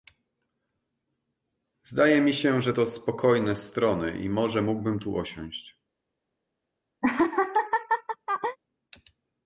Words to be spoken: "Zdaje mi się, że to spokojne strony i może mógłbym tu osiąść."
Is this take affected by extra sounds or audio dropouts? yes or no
yes